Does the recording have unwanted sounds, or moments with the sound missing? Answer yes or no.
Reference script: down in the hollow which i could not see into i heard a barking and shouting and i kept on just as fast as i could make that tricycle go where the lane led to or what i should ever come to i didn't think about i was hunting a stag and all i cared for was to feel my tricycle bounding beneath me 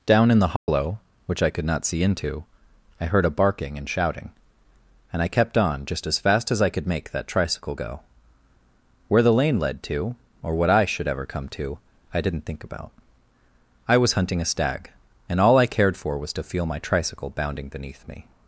yes